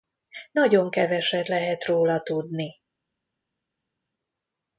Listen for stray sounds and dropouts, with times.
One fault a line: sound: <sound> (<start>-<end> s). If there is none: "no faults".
no faults